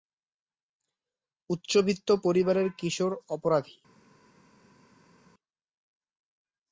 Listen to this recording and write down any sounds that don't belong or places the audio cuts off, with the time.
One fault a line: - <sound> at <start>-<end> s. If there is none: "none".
none